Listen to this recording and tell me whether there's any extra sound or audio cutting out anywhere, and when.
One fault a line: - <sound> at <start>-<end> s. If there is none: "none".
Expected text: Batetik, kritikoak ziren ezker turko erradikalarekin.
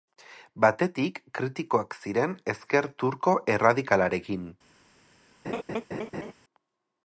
- laugh at 5.4-6.3 s